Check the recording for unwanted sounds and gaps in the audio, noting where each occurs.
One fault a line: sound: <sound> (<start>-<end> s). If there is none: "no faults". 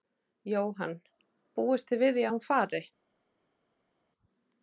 no faults